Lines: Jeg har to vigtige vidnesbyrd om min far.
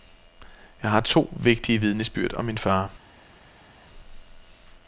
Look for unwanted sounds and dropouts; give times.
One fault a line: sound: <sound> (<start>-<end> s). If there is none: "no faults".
no faults